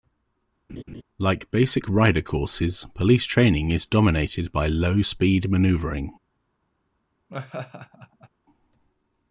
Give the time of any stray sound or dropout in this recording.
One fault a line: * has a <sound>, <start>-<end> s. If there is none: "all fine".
* has a laugh, 0.7-1.0 s
* has a laugh, 7.3-8.3 s